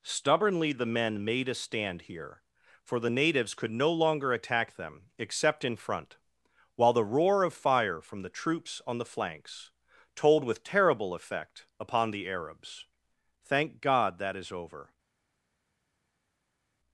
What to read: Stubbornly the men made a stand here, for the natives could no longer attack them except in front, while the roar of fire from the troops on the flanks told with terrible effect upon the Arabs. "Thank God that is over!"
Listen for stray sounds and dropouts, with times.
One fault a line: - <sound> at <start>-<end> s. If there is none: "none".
none